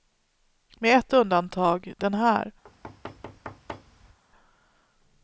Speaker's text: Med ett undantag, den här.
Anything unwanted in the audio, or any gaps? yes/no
yes